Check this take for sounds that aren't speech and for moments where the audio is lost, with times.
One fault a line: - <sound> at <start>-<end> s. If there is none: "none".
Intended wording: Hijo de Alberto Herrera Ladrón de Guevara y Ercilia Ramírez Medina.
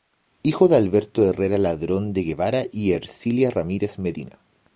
none